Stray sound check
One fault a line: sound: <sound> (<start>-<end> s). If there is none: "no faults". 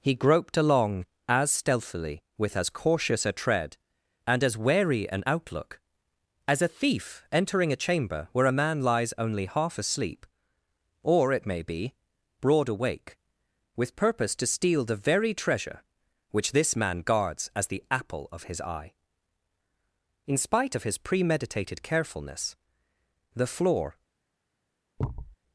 sound: thud (25.0-25.4 s)